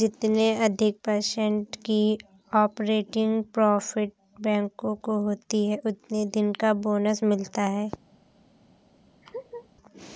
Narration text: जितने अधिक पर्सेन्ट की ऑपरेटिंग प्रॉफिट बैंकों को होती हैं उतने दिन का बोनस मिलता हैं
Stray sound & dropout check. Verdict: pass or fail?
fail